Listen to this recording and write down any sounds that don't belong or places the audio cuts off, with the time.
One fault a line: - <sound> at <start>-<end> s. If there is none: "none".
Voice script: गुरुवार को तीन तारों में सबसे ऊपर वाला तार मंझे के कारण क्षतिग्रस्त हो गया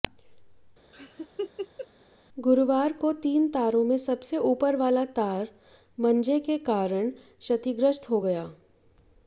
- laugh at 0.9-1.9 s